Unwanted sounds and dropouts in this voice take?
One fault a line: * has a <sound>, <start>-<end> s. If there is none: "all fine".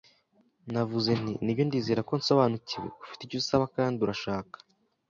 all fine